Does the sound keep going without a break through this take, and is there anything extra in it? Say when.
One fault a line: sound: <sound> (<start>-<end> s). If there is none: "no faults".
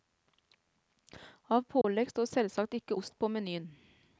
sound: dropout (1.8-1.8 s)